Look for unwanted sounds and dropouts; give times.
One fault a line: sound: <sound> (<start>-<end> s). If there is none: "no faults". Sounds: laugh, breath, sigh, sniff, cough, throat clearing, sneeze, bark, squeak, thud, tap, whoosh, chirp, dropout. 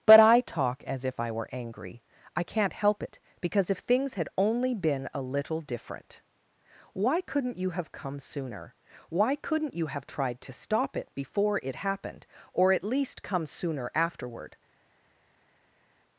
no faults